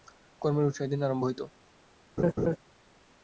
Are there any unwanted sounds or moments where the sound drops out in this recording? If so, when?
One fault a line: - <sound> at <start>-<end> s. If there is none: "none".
- laugh at 2.2-2.6 s